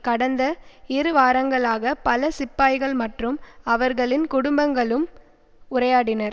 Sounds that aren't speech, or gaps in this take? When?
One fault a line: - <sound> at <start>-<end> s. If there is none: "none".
none